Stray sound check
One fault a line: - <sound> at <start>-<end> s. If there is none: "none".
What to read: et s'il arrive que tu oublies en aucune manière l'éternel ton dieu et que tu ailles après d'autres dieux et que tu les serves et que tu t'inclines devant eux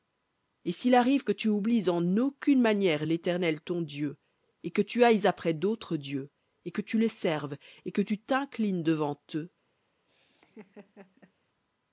- laugh at 10.1-11.3 s